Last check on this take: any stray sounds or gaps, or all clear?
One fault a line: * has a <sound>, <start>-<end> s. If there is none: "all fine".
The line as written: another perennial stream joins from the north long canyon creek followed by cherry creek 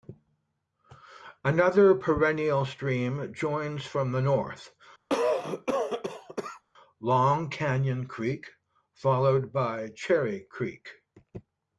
* has a cough, 5.1-6.6 s